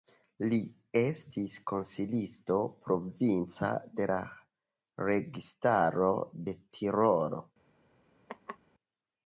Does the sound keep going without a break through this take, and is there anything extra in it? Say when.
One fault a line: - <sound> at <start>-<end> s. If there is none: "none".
- laugh at 8.3-8.6 s